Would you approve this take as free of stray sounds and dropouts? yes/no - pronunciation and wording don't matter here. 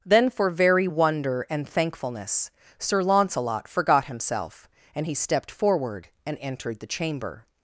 yes